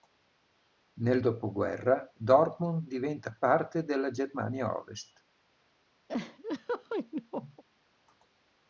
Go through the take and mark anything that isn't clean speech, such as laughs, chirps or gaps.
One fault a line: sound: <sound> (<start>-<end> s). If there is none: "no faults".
sound: laugh (6.1-7.6 s)